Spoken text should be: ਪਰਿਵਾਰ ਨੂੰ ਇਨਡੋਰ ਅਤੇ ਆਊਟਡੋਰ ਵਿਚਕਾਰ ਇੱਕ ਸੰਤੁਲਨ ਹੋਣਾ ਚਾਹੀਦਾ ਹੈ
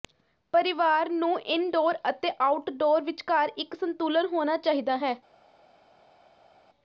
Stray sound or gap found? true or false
false